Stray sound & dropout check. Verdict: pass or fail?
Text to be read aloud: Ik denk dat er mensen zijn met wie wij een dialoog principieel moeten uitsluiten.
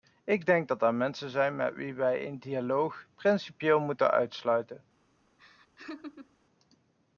fail